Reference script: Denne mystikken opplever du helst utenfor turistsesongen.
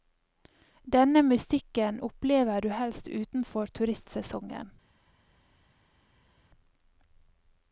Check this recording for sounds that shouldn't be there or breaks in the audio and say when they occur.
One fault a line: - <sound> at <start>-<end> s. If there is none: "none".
none